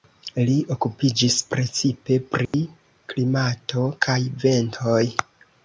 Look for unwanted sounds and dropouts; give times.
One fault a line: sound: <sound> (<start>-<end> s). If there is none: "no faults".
sound: dropout (2.5-2.5 s)